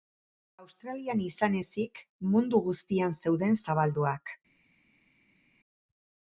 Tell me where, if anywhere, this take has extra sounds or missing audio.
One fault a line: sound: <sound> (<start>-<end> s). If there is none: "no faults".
no faults